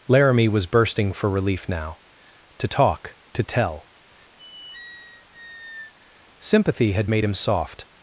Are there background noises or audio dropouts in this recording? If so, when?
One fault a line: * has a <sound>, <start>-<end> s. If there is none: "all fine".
* has a squeak, 4.4-5.9 s